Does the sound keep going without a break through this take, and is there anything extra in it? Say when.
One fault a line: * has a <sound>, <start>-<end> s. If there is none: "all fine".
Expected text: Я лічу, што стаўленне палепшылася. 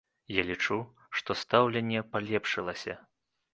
all fine